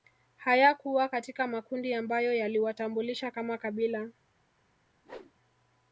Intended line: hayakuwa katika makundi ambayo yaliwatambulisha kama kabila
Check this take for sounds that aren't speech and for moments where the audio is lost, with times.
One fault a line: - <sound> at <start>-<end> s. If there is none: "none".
- whoosh at 5.0-5.3 s